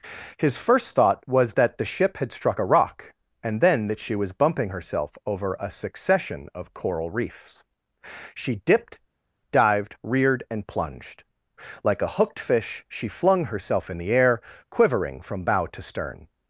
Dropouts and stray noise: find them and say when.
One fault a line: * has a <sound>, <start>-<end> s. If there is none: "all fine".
all fine